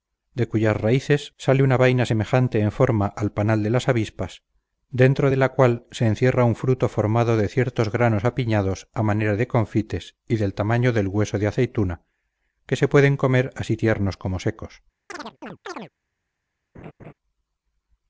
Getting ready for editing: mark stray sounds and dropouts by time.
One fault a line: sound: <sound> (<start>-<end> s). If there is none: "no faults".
sound: chirp (15.1-15.9 s)
sound: laugh (16.7-17.1 s)